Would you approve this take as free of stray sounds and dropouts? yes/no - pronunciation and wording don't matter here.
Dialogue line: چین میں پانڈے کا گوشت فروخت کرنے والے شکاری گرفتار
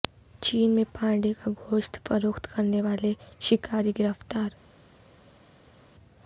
yes